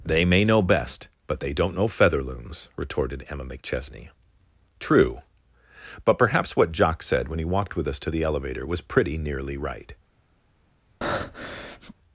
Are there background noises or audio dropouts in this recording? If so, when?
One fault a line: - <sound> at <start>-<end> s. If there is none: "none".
- breath at 11.0-11.9 s